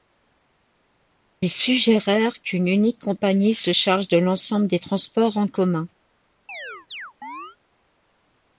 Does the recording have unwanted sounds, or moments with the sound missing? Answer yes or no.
yes